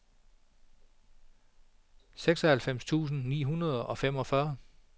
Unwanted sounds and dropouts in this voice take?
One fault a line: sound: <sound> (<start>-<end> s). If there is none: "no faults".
no faults